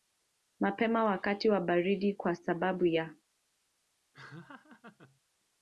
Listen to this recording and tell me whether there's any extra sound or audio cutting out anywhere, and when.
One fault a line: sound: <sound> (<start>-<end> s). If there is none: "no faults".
sound: laugh (4.1-5.2 s)